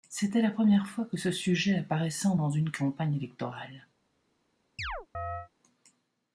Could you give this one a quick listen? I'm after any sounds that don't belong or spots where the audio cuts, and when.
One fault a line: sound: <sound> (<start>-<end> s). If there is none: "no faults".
sound: chirp (4.8-5.5 s)